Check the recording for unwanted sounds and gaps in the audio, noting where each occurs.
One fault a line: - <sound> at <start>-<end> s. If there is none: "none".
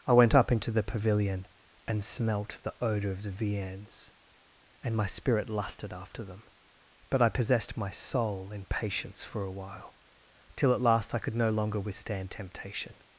none